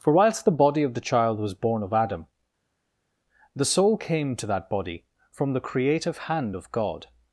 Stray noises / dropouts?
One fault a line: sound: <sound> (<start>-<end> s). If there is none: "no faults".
no faults